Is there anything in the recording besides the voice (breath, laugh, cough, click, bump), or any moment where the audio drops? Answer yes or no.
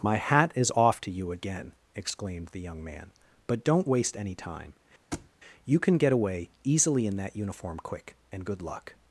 yes